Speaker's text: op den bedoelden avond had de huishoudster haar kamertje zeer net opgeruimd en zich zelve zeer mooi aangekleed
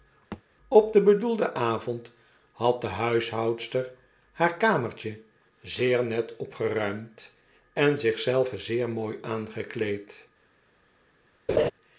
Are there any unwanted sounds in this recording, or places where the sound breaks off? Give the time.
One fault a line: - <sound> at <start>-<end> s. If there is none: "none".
- thud at 0.3-0.4 s
- laugh at 11.5-11.7 s